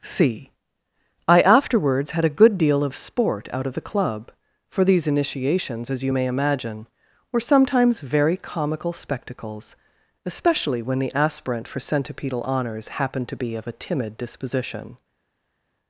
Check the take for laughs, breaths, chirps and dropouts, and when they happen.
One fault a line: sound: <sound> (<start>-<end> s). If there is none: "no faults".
no faults